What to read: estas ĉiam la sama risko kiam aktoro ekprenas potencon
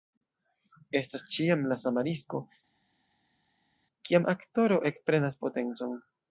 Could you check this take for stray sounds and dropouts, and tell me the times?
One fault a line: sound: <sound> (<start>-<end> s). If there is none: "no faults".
no faults